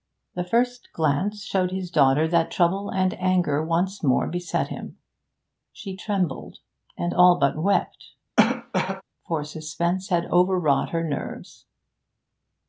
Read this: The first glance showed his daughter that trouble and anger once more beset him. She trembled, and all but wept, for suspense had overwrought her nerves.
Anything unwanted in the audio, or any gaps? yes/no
yes